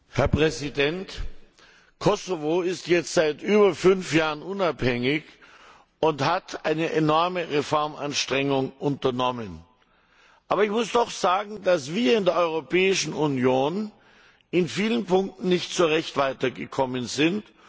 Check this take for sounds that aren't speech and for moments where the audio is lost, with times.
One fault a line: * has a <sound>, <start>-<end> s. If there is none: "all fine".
all fine